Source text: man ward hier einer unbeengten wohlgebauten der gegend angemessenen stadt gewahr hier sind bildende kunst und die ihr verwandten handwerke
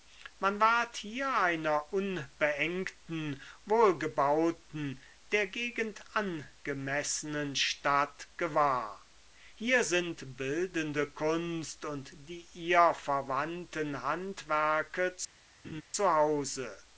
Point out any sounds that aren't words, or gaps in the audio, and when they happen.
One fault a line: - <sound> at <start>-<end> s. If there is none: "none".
- laugh at 15.6-15.8 s